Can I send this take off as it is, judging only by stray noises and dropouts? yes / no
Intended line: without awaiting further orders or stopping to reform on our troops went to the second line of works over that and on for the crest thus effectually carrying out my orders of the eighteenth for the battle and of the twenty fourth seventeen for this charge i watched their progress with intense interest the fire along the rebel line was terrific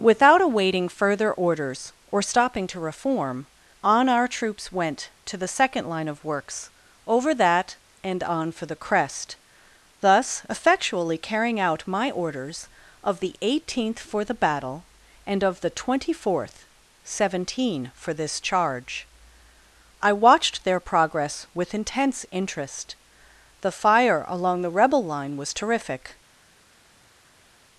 yes